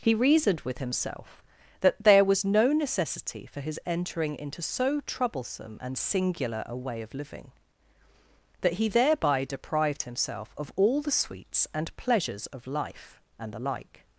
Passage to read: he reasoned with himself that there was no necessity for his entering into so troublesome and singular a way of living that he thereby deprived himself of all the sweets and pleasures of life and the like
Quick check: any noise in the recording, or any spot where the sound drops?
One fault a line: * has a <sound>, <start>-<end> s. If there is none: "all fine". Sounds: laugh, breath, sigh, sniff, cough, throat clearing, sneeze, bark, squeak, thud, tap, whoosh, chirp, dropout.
all fine